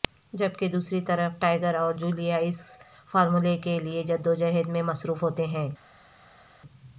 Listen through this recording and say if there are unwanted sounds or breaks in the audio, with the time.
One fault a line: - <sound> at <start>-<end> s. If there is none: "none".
none